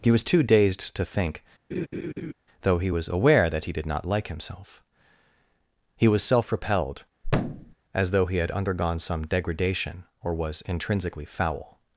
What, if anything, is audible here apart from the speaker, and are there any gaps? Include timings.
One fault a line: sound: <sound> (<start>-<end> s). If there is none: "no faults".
sound: laugh (1.7-2.3 s)
sound: thud (7.2-7.7 s)